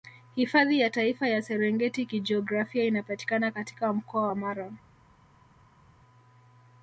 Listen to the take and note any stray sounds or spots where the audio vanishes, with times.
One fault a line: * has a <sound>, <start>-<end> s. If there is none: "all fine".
all fine